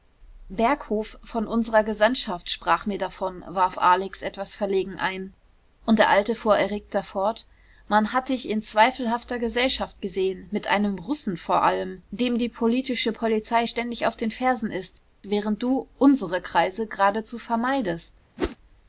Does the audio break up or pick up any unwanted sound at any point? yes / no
yes